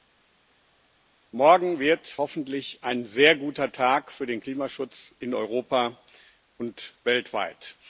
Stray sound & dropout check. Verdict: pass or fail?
pass